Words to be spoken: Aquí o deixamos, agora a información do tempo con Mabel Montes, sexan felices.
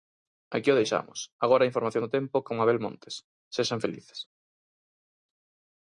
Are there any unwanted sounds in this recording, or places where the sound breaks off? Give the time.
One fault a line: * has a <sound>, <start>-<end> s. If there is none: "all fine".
all fine